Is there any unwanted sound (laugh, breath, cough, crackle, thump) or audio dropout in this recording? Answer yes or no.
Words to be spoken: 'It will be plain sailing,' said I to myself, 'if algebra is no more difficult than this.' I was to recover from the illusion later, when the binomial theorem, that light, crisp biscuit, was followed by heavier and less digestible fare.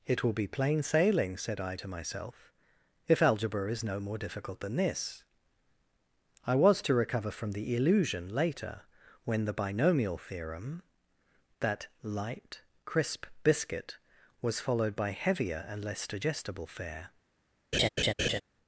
yes